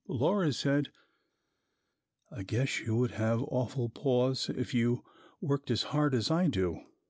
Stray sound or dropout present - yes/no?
no